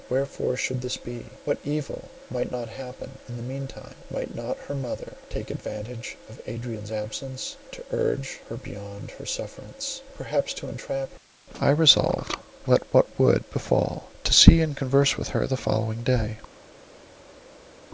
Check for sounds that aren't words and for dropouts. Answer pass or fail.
pass